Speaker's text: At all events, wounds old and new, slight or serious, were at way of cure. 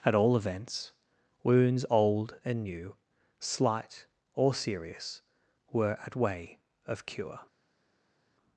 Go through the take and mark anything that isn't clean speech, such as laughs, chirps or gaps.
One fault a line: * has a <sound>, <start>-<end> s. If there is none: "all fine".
all fine